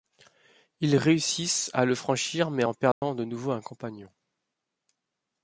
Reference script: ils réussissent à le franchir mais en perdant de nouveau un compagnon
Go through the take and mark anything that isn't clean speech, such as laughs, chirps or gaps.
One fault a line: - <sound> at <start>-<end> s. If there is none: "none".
- dropout at 2.9-3.0 s